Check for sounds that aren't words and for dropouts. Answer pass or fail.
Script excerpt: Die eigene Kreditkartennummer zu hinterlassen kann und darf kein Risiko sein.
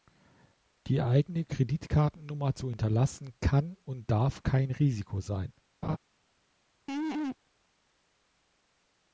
fail